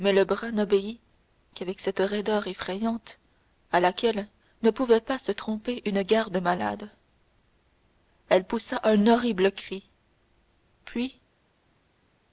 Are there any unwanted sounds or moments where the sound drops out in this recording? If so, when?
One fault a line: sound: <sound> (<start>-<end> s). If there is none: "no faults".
no faults